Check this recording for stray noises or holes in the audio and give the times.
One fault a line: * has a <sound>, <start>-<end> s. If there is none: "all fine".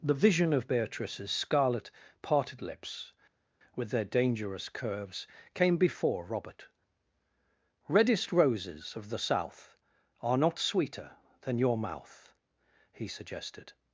all fine